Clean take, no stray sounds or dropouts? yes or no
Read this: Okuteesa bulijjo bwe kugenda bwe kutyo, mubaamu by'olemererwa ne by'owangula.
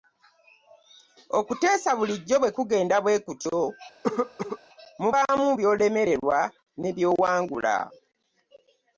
no